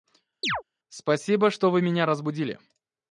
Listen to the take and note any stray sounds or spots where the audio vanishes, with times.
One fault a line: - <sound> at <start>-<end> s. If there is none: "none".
- chirp at 0.4-0.6 s